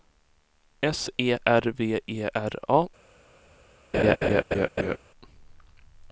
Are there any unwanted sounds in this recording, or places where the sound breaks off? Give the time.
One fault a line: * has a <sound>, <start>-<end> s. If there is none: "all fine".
* has a laugh, 3.9-5.0 s